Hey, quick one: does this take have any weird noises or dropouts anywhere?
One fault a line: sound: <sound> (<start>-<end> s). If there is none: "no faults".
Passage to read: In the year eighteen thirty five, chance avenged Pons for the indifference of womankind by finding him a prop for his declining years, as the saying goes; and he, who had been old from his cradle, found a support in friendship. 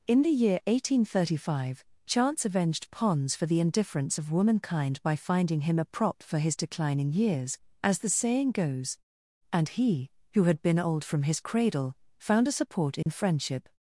sound: dropout (13.0-13.1 s)